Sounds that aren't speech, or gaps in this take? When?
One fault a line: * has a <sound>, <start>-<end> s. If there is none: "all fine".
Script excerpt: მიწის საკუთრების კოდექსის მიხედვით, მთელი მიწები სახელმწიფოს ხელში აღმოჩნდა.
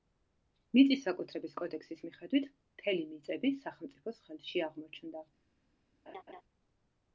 * has a laugh, 6.1-6.4 s